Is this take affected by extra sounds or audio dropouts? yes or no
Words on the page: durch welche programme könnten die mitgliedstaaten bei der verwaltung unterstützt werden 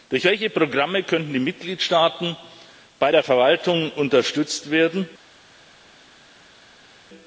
no